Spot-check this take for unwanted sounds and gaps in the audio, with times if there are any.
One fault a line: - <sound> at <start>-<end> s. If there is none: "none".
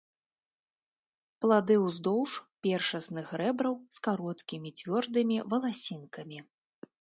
none